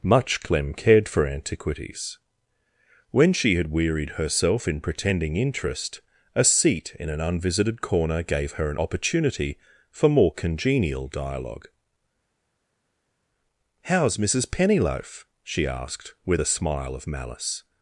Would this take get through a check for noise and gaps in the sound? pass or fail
pass